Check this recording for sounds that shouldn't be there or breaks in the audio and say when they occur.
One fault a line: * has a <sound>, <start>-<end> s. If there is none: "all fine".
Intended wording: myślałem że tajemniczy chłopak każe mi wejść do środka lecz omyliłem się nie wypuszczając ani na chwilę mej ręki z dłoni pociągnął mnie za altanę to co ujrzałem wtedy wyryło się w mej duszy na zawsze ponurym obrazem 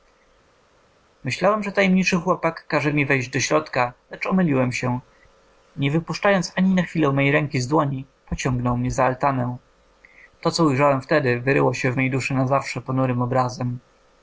all fine